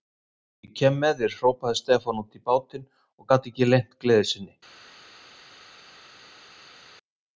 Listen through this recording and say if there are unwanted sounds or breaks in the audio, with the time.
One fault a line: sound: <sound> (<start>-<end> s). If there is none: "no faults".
no faults